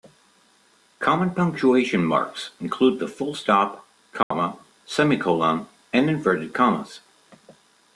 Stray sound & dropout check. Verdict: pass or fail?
fail